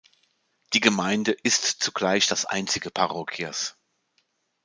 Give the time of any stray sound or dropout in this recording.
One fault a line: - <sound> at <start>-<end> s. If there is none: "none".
none